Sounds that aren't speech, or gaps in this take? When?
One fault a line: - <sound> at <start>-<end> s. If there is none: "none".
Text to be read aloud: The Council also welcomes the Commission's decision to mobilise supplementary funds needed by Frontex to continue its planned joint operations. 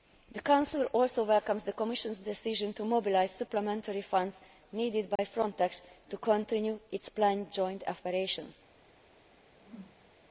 - dropout at 5.2-5.2 s
- whoosh at 9.5-10.1 s